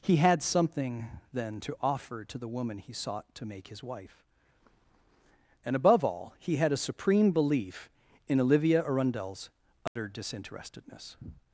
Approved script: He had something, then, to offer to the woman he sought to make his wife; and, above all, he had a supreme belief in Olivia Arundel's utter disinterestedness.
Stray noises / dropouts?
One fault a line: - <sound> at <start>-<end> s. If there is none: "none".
- dropout at 9.9-10.0 s